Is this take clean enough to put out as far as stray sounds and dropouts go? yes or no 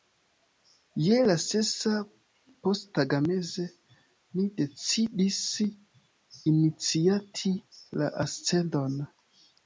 yes